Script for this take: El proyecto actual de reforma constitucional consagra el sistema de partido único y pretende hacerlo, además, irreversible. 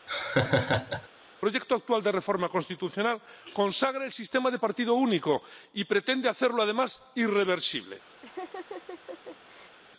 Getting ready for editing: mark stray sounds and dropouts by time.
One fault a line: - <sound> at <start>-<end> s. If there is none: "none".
- laugh at 0.1-1.1 s
- laugh at 8.2-9.8 s